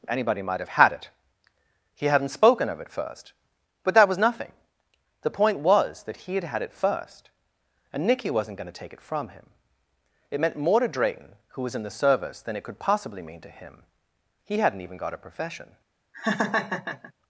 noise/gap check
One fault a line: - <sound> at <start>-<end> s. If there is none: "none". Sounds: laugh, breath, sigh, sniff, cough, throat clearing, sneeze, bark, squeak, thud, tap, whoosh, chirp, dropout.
- laugh at 16.1-17.1 s